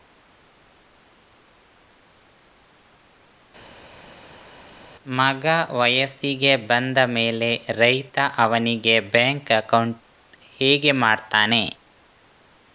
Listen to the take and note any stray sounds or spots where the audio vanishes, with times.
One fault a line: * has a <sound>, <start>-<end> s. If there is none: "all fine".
all fine